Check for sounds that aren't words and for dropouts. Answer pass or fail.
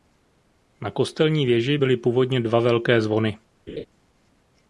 fail